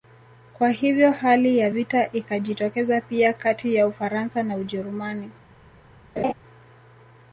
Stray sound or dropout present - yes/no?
yes